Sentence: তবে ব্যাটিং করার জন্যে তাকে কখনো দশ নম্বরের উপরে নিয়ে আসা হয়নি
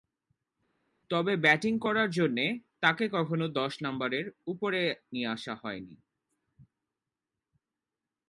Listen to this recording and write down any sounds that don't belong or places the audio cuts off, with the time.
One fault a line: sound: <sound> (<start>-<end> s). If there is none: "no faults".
no faults